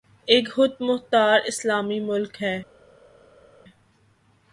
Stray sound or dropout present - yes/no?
no